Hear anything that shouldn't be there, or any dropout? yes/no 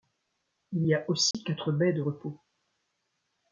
yes